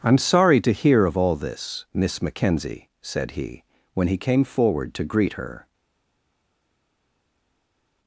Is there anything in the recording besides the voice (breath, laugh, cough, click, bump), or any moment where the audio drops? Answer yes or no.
no